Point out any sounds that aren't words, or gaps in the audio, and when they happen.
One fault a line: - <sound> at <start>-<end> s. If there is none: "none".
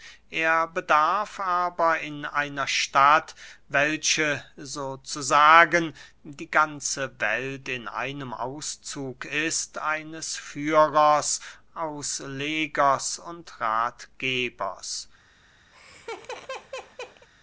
- laugh at 15.7-17.3 s